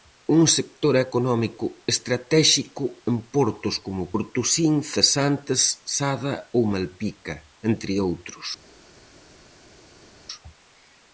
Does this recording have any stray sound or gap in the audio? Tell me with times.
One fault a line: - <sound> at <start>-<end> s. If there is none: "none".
none